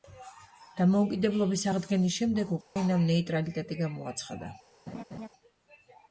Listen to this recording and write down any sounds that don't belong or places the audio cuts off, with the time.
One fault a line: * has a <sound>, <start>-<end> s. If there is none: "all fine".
* has a dropout, 2.6-2.8 s
* has a laugh, 4.9-5.3 s